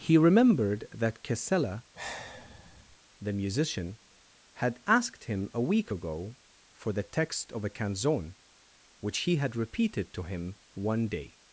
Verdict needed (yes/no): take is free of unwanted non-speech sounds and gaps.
no